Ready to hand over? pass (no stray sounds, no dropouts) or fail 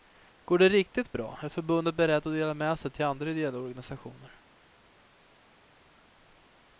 pass